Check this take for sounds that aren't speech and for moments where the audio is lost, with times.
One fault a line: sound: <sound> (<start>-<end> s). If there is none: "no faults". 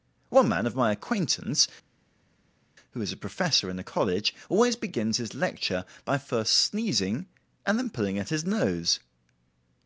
no faults